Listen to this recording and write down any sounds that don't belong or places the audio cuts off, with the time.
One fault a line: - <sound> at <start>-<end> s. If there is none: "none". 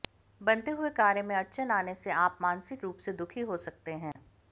- dropout at 4.1-4.2 s